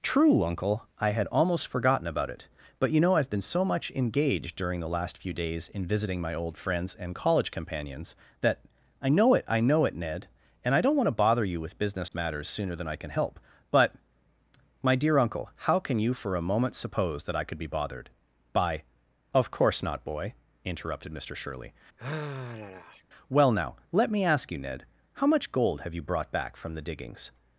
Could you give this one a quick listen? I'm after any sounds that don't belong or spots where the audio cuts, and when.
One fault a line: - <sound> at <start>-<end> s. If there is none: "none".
- dropout at 12.1-12.1 s
- sigh at 22.0-23.0 s